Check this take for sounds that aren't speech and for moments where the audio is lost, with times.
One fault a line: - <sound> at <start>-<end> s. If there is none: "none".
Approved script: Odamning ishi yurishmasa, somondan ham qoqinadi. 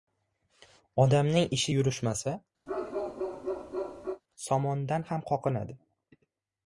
- bark at 2.7-4.2 s